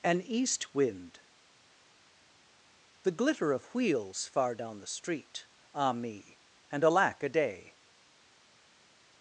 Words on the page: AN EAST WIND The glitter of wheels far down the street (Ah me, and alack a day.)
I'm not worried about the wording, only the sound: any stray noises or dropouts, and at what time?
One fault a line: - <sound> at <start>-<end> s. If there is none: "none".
none